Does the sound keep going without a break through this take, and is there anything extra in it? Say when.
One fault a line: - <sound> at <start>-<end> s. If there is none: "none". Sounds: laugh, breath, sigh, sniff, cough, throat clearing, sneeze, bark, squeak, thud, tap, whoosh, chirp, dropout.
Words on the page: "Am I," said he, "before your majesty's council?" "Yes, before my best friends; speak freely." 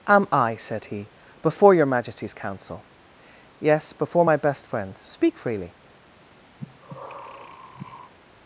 - breath at 6.6-8.1 s